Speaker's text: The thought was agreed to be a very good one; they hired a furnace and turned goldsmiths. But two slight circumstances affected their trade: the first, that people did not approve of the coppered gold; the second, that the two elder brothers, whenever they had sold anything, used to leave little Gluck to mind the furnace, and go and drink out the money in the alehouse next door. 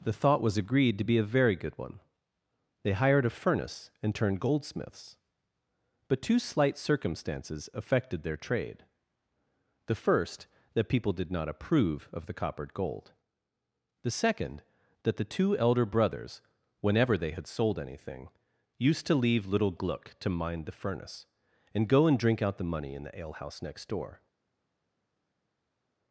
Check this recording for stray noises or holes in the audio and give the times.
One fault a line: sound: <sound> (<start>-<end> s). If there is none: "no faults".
no faults